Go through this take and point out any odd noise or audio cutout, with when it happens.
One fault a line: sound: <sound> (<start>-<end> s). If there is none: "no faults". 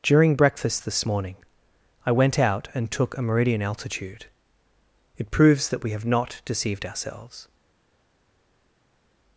no faults